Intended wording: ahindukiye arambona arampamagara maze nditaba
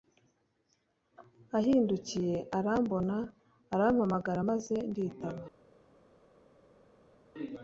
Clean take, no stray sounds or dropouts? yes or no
yes